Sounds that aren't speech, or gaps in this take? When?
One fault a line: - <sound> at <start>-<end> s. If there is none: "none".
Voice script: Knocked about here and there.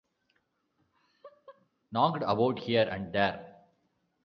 - laugh at 0.8-1.7 s